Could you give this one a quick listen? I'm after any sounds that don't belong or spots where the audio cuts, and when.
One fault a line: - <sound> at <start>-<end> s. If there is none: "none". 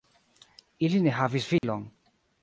- dropout at 1.6-1.6 s